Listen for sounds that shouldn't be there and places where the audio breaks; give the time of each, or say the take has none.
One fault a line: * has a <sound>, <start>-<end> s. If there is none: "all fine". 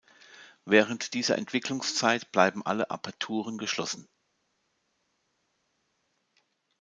all fine